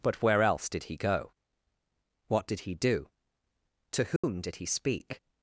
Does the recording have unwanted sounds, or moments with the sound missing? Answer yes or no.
yes